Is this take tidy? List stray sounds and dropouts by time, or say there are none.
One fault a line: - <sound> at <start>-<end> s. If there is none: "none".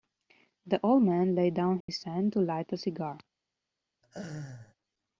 - dropout at 1.8-1.9 s
- laugh at 4.0-4.8 s